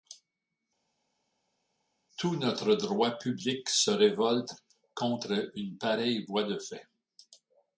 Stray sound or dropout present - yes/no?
no